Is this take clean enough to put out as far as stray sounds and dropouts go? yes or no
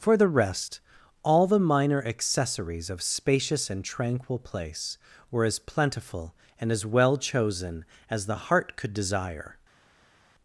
yes